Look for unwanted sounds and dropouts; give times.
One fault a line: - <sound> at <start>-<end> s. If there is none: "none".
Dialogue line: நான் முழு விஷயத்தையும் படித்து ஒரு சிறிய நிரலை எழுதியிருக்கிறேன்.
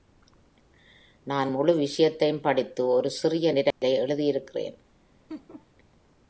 - dropout at 3.7-3.8 s
- laugh at 5.3-5.7 s